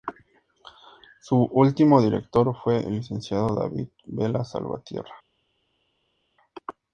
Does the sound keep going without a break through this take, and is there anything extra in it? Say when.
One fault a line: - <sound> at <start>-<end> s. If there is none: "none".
none